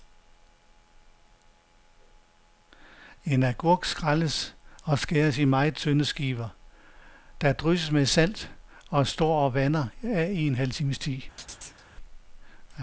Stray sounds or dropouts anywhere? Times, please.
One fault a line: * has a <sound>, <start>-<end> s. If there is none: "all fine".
* has a chirp, 11.4-11.9 s